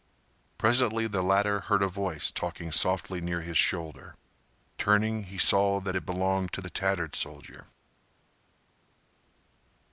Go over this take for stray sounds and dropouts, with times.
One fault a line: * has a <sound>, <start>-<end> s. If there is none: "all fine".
all fine